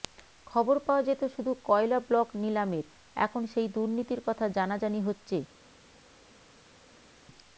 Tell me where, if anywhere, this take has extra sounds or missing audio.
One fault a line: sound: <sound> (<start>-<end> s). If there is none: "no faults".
no faults